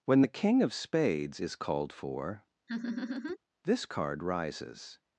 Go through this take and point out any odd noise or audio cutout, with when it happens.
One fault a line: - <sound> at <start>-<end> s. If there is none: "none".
- laugh at 2.7-3.4 s